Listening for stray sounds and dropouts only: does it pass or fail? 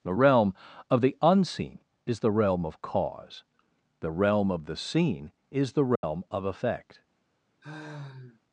fail